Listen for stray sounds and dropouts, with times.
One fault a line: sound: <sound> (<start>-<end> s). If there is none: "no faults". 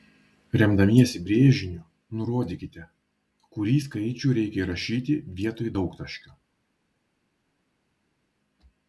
no faults